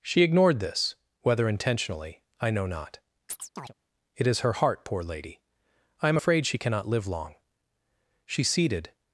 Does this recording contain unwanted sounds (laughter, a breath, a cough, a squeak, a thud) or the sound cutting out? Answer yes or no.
yes